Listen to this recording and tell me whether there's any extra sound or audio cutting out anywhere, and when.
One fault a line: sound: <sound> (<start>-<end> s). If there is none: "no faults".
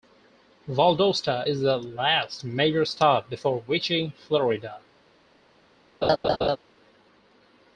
sound: laugh (6.0-6.6 s)